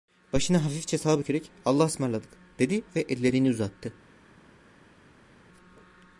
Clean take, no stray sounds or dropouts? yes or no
yes